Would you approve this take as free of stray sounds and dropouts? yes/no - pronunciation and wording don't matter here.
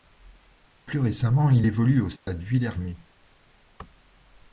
no